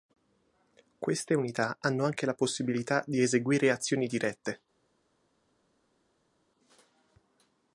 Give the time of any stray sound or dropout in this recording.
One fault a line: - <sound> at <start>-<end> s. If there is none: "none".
none